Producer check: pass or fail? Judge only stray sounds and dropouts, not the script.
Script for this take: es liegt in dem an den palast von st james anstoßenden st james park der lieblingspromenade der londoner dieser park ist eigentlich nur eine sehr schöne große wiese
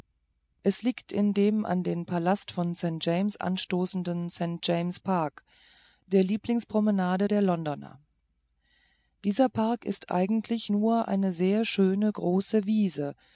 pass